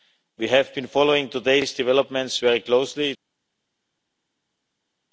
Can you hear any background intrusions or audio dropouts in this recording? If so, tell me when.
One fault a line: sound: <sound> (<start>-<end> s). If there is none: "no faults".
no faults